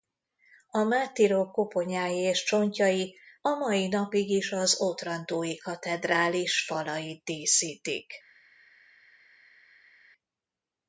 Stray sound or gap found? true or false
false